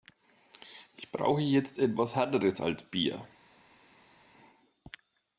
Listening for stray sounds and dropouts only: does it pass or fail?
pass